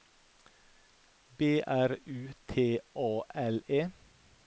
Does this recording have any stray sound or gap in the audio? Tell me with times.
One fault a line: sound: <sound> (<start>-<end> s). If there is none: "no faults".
no faults